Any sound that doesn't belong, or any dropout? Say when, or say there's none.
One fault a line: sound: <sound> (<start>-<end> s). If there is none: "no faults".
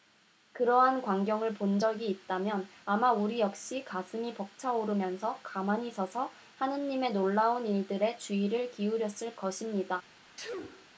sound: sneeze (10.4-10.9 s)